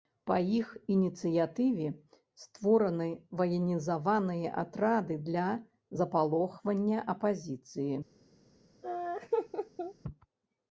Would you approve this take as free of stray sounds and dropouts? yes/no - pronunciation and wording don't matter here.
no